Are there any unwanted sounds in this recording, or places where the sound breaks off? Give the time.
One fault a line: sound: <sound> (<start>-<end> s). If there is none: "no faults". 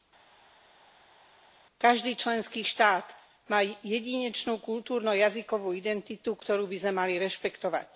no faults